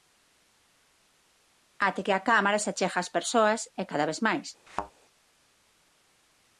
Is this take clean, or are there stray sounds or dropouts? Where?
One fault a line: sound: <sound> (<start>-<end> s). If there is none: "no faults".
sound: thud (4.7-4.9 s)